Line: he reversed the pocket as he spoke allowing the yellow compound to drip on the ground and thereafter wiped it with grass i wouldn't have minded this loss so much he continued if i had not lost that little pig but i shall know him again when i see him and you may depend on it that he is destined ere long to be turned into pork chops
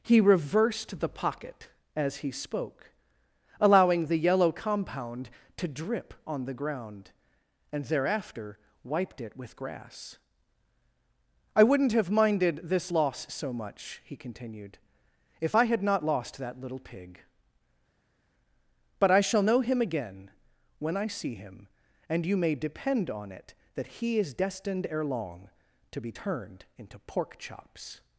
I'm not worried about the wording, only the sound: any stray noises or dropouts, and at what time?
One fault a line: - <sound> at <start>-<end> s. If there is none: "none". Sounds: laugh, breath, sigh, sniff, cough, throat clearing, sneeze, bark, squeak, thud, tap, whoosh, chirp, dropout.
none